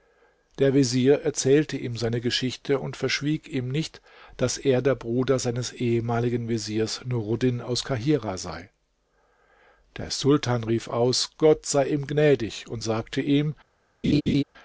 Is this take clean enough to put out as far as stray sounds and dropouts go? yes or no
no